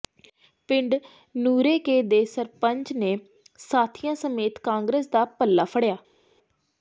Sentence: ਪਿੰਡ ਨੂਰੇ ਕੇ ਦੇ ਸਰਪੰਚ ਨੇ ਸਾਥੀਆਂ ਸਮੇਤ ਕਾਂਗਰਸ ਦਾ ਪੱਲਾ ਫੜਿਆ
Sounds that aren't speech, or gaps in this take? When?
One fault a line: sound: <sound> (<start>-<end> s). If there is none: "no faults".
no faults